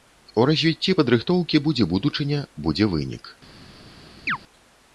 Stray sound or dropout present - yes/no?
yes